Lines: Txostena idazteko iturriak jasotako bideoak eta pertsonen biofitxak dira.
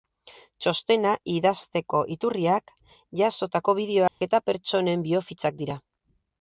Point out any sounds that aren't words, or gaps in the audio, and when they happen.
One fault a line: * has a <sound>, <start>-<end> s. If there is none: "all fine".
* has a dropout, 4.1-4.2 s